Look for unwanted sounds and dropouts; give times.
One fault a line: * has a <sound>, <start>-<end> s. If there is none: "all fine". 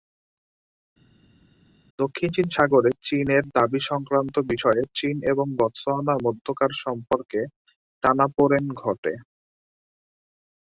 all fine